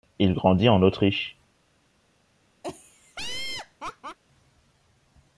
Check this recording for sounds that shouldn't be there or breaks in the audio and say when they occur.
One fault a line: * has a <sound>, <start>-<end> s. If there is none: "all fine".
* has a laugh, 2.6-4.2 s